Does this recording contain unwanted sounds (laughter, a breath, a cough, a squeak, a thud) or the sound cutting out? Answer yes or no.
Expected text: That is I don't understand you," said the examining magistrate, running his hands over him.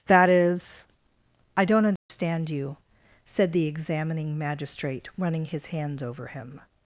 yes